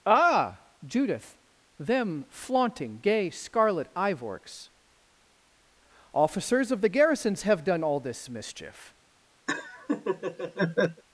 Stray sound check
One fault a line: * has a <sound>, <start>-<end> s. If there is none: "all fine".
* has a laugh, 9.5-11.0 s